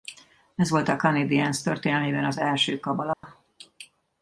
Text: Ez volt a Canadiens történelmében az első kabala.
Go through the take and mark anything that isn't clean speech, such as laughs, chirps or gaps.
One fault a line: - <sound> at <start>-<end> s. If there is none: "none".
- dropout at 3.1-3.2 s